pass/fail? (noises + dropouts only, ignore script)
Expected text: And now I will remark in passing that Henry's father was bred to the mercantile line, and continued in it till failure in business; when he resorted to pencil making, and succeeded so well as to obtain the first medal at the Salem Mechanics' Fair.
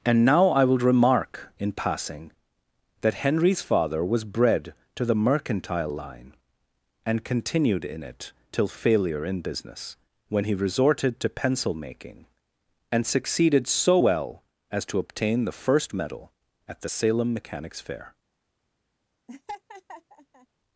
fail